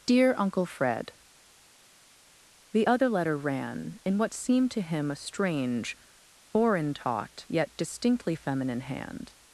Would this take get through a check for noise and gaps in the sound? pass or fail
pass